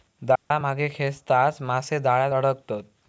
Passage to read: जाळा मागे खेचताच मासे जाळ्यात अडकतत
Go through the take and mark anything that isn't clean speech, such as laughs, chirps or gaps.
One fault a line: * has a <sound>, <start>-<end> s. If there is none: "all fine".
* has a dropout, 0.4-0.5 s